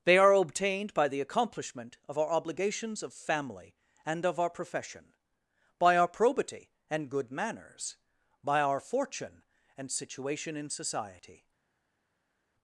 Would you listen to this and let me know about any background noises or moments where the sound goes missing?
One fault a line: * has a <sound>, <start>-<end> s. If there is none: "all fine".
all fine